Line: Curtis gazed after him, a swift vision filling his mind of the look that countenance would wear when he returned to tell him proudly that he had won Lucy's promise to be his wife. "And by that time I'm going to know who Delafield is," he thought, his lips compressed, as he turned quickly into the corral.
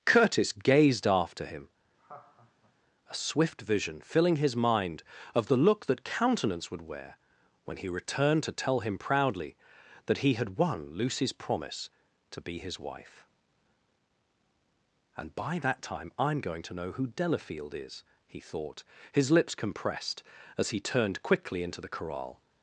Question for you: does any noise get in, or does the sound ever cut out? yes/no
yes